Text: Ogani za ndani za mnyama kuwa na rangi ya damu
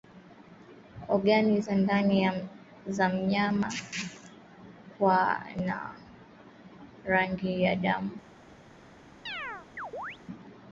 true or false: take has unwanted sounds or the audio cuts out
true